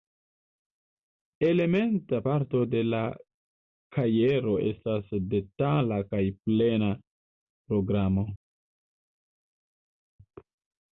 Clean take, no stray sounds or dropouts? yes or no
yes